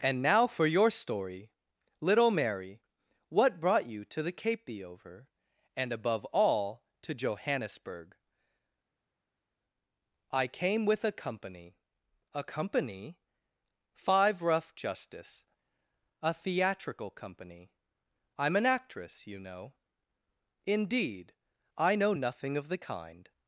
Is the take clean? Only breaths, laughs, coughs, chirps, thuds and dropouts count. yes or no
yes